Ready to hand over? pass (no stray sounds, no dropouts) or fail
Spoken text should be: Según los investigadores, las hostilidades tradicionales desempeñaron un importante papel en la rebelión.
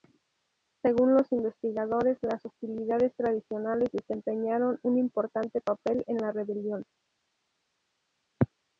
pass